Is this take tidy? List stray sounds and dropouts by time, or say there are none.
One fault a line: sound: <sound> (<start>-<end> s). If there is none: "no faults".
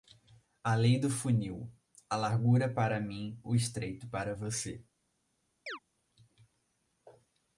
sound: chirp (5.7-5.8 s)